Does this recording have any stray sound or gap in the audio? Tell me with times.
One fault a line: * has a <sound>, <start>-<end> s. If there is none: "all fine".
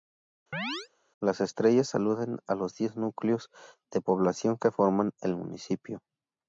* has a chirp, 0.5-0.9 s